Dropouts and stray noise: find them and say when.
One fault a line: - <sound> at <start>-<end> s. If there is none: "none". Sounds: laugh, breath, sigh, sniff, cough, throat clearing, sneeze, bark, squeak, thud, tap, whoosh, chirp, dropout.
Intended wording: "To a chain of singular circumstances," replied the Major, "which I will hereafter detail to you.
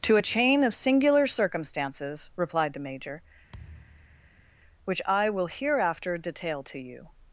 - thud at 3.5-4.5 s